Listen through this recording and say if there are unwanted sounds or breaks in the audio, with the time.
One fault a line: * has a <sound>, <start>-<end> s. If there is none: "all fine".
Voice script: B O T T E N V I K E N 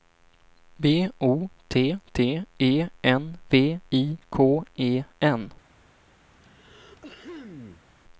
* has a throat clearing, 6.3-7.9 s